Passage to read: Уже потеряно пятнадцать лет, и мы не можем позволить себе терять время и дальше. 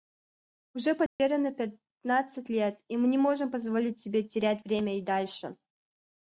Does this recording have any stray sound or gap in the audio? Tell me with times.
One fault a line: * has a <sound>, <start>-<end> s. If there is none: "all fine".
* has a dropout, 1.1-1.2 s